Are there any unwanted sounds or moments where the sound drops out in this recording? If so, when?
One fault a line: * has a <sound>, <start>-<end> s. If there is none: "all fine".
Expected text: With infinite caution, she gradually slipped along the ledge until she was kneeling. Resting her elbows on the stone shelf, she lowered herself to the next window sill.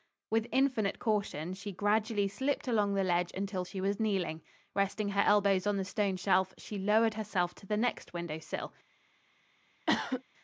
* has a cough, 9.9-10.2 s